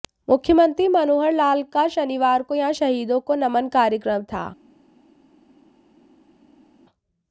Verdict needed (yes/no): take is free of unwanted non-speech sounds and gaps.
yes